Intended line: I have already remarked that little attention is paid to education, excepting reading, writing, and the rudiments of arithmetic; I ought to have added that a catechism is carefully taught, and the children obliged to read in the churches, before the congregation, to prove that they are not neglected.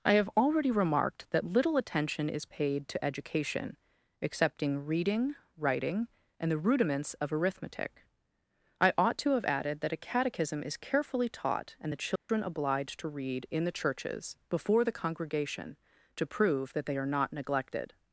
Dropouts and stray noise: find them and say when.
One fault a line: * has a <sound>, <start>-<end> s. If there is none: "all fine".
* has a dropout, 12.2-12.3 s